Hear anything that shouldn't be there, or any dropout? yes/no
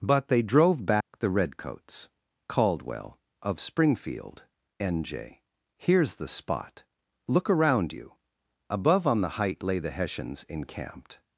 yes